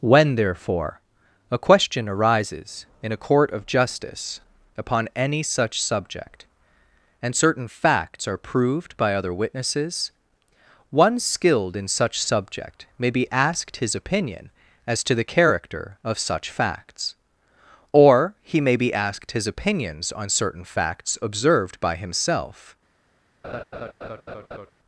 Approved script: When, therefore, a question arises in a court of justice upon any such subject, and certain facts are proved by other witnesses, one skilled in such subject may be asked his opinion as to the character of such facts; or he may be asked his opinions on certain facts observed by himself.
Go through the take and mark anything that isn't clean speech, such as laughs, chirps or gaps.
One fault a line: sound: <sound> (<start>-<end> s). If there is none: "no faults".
sound: laugh (23.4-24.7 s)